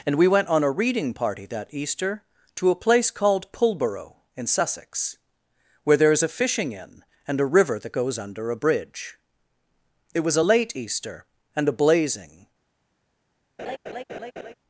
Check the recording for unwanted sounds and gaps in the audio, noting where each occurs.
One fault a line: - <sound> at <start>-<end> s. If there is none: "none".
- laugh at 13.6-14.5 s